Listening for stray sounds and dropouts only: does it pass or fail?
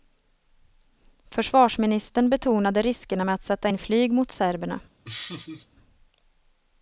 fail